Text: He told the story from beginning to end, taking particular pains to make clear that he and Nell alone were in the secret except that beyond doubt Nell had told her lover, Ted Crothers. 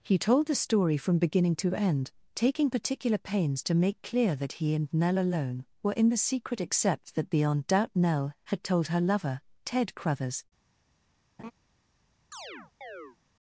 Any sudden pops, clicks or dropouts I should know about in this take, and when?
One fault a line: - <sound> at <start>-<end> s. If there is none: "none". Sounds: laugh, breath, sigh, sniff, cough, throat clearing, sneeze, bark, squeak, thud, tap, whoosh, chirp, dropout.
- laugh at 11.4-11.5 s
- chirp at 12.3-13.2 s